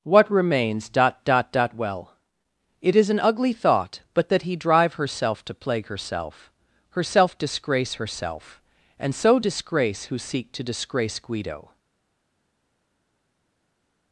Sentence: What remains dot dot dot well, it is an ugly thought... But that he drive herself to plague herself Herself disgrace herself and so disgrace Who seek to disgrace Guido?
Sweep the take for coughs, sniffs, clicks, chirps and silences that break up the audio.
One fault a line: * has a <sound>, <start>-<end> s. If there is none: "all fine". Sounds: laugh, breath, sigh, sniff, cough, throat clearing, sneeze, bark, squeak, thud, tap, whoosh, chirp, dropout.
all fine